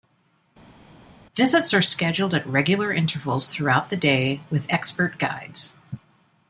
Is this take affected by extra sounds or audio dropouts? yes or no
no